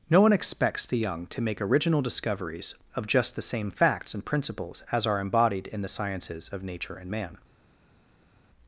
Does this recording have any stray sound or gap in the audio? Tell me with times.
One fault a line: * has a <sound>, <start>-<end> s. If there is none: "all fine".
all fine